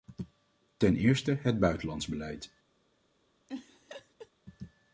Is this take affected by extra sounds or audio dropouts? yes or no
yes